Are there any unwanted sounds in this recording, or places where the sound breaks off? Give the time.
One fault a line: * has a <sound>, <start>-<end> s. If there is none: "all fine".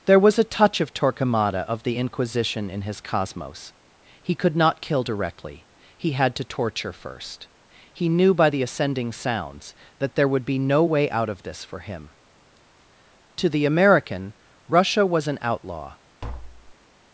* has a tap, 16.2-16.8 s